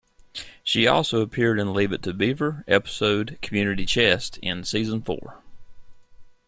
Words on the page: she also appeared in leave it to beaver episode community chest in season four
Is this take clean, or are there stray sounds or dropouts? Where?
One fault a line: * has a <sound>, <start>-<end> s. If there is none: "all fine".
all fine